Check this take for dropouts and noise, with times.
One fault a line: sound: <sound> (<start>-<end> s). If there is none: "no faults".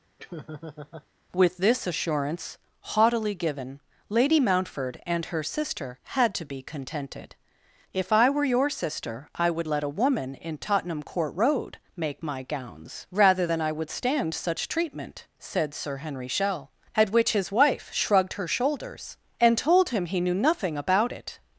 sound: laugh (0.2-1.1 s)